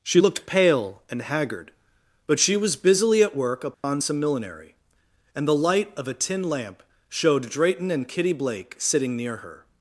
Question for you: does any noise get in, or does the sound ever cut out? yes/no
yes